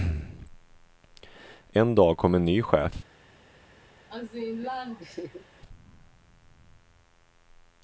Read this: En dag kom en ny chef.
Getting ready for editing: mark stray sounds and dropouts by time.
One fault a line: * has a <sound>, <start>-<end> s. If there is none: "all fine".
* has a laugh, 4.1-5.4 s